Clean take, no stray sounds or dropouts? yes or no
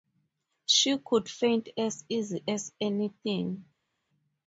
yes